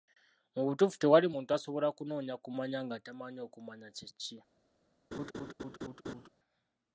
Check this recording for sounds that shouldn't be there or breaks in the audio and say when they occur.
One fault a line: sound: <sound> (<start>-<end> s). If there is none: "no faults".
sound: laugh (5.1-6.3 s)